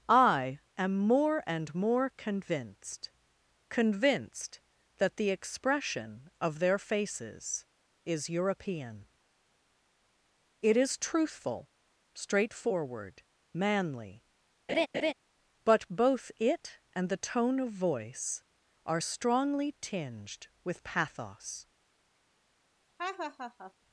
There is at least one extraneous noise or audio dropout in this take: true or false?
true